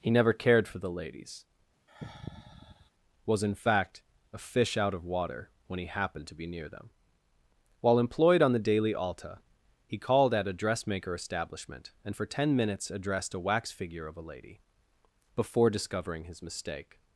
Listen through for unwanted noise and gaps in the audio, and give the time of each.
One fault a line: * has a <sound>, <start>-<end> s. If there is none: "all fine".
* has a sigh, 1.9-2.9 s